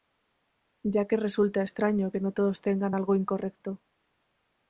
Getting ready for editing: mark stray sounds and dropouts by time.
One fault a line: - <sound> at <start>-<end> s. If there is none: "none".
none